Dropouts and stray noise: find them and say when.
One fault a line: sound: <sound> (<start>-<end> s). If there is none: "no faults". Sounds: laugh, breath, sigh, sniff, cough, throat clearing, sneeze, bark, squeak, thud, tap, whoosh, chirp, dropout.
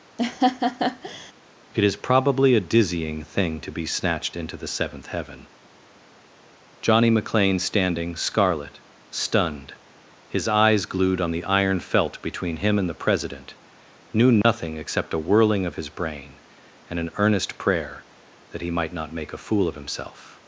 sound: laugh (0.2-1.3 s)
sound: dropout (14.4-14.4 s)